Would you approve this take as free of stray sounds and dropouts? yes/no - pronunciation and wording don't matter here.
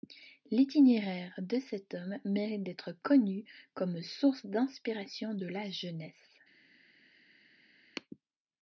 yes